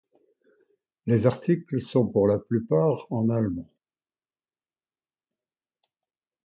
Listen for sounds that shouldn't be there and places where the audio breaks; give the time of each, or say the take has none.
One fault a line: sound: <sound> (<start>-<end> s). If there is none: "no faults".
no faults